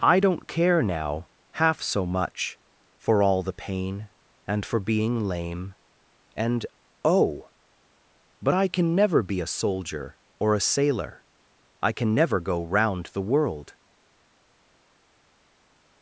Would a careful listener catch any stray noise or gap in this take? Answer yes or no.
no